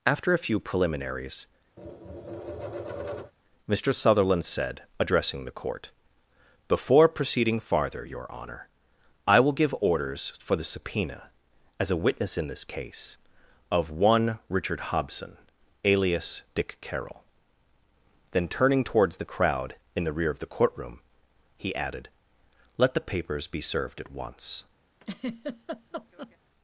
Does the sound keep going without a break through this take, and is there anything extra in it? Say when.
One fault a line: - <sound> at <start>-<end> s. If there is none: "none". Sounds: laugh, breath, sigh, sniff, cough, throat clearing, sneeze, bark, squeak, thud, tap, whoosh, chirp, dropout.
- tap at 1.8-3.3 s
- laugh at 25.0-26.4 s